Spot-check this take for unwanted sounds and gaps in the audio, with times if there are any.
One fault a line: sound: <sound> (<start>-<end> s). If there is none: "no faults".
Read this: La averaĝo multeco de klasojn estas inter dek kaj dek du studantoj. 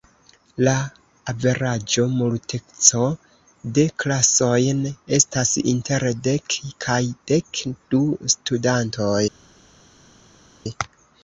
no faults